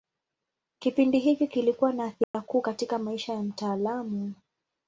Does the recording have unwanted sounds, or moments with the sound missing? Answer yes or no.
yes